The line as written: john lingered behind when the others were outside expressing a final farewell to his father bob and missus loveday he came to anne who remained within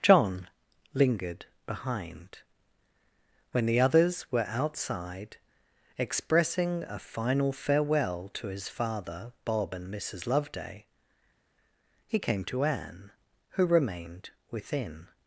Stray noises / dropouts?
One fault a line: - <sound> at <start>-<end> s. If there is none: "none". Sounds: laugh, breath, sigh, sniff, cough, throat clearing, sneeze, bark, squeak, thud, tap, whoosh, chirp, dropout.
none